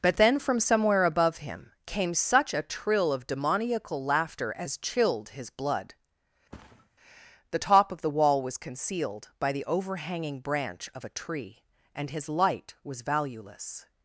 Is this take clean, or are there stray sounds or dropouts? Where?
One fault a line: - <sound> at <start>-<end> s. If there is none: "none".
- thud at 6.5-6.9 s